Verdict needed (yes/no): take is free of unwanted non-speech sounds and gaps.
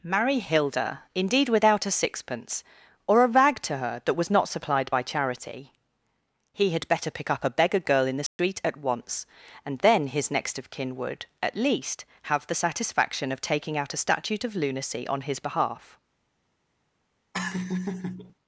no